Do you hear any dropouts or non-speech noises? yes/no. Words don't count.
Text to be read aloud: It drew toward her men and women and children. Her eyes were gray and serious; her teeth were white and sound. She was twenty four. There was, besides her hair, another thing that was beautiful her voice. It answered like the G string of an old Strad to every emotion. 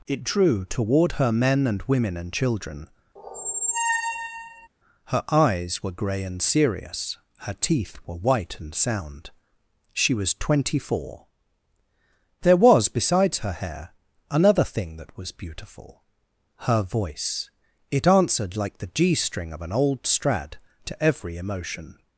yes